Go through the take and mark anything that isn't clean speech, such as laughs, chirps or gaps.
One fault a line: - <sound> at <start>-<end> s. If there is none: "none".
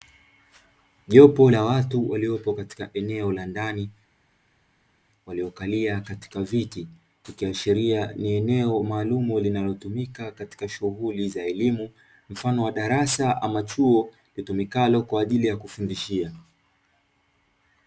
none